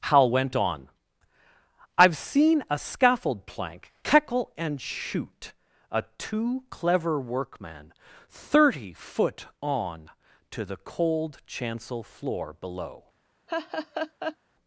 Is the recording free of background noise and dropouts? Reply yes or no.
no